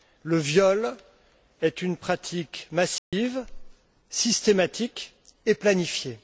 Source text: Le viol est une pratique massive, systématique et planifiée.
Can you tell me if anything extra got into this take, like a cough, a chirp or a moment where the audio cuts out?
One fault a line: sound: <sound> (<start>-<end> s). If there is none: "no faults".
sound: dropout (3.0-3.1 s)